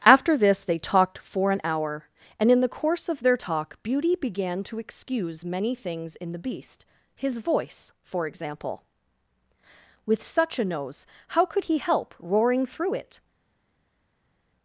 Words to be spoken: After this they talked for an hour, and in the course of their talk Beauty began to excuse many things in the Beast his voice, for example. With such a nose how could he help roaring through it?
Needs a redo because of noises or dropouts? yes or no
no